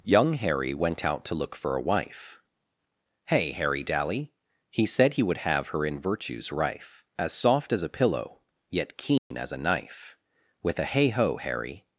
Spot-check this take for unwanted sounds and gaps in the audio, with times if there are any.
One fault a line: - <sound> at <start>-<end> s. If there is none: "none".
- dropout at 9.2-9.3 s